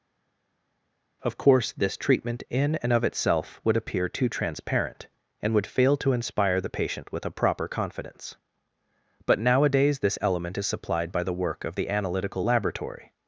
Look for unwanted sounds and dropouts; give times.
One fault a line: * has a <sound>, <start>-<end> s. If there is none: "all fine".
all fine